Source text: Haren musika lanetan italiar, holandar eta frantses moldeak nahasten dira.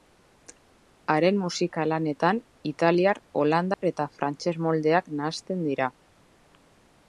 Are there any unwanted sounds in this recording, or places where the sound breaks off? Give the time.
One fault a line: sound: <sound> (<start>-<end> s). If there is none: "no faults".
sound: dropout (3.7-3.8 s)